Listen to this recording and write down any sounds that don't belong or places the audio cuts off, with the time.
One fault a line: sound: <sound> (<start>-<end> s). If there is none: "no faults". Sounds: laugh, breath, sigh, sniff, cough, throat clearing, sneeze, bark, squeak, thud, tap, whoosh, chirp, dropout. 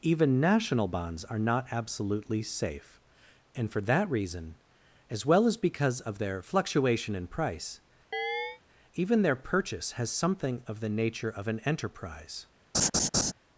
sound: chirp (8.1-8.6 s)
sound: laugh (12.7-13.3 s)